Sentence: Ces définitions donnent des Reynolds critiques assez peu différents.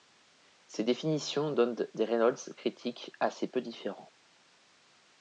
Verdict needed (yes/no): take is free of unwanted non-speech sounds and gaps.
yes